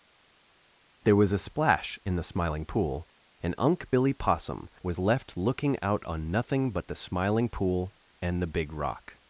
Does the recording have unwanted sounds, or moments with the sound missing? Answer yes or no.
no